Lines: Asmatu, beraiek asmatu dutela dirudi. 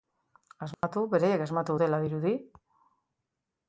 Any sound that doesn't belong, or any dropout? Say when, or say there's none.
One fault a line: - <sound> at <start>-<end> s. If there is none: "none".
- dropout at 0.7-0.8 s